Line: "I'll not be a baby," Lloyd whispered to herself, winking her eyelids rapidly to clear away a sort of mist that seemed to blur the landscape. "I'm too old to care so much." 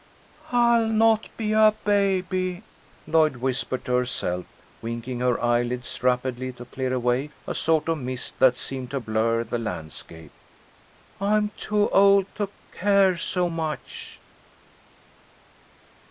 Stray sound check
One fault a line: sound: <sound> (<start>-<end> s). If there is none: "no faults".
no faults